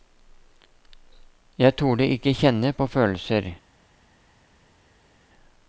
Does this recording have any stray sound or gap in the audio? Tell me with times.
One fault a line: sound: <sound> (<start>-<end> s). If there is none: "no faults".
no faults